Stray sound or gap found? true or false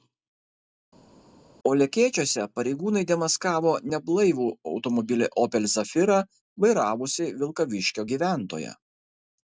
false